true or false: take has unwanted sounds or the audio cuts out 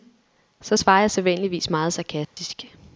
true